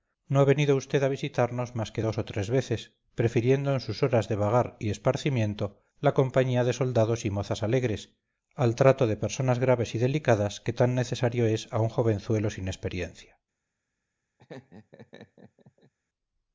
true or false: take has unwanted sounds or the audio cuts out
true